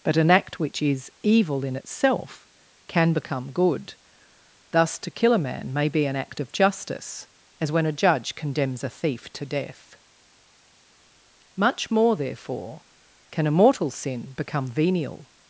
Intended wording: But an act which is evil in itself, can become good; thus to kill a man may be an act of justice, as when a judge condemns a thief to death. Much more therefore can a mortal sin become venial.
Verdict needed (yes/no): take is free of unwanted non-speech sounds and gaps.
yes